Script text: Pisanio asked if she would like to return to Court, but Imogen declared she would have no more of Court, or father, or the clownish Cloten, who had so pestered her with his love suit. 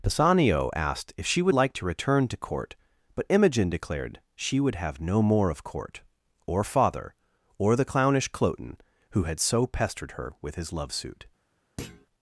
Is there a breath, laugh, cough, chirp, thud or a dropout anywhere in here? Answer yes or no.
yes